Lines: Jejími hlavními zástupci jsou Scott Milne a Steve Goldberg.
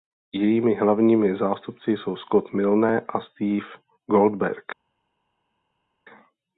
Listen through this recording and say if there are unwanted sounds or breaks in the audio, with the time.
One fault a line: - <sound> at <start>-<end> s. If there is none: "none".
none